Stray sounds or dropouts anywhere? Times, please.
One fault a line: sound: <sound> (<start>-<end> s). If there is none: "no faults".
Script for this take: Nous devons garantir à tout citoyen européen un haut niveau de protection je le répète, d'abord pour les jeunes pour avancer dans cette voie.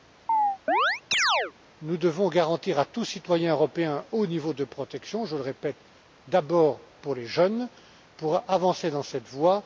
sound: chirp (0.3-1.5 s)